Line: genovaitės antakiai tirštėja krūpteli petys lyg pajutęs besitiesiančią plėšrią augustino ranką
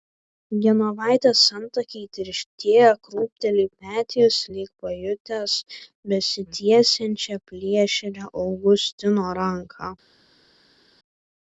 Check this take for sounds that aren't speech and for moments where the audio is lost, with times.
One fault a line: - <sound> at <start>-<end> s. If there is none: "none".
none